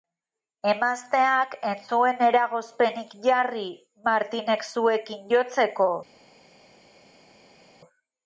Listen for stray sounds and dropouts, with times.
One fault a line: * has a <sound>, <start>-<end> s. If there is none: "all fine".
all fine